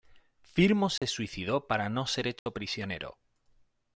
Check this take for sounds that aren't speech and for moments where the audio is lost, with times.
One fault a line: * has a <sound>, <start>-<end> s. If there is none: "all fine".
* has a dropout, 1.0-1.0 s
* has a dropout, 2.4-2.5 s